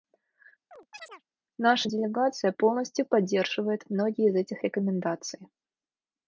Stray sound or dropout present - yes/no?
yes